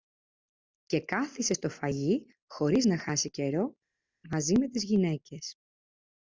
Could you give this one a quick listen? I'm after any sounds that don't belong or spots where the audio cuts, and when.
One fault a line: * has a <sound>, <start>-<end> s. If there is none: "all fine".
all fine